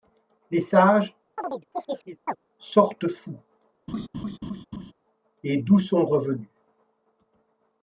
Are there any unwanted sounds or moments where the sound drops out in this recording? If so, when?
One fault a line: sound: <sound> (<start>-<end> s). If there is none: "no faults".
sound: chirp (1.4-2.4 s)
sound: laugh (3.9-4.9 s)